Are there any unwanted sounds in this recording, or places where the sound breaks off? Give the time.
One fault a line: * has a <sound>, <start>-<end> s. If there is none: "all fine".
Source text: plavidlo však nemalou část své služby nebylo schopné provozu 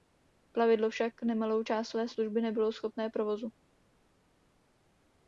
all fine